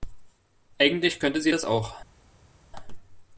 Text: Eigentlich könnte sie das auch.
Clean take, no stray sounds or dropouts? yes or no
yes